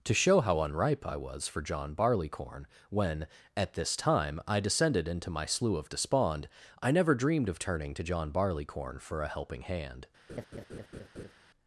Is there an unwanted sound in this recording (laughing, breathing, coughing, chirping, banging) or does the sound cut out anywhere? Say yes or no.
yes